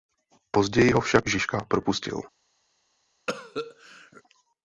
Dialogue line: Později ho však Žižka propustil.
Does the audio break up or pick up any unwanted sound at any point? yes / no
yes